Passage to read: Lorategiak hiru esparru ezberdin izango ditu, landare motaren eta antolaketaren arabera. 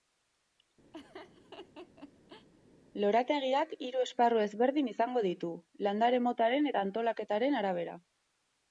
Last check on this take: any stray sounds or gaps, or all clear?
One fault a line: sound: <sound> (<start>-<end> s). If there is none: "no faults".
sound: laugh (0.9-2.5 s)